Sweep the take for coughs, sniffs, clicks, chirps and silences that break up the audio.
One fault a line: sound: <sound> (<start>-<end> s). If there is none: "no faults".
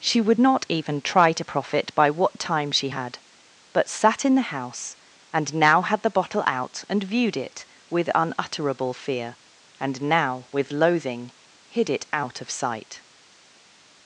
no faults